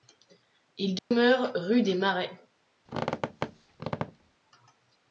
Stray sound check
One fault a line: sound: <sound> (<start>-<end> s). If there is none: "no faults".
sound: dropout (1.0-1.1 s)
sound: squeak (2.9-4.4 s)